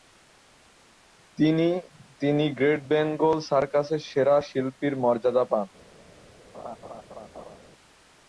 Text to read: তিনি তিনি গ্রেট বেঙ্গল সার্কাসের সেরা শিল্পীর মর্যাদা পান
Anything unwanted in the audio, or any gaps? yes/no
yes